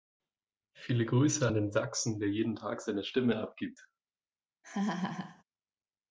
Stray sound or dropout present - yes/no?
yes